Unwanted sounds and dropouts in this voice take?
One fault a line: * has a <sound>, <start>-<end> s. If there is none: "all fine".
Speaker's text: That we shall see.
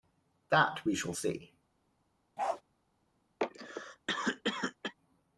* has a bark, 2.4-2.6 s
* has a cough, 3.4-4.9 s